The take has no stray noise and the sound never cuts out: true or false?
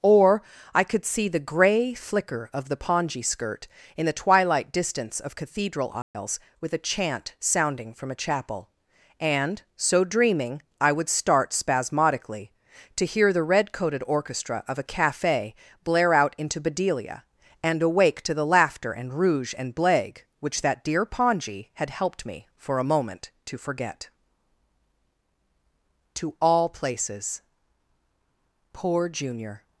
false